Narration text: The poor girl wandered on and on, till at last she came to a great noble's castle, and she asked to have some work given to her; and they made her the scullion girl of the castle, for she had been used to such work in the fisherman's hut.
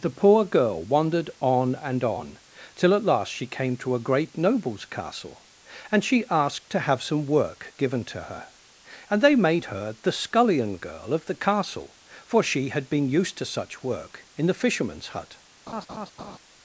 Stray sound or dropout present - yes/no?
yes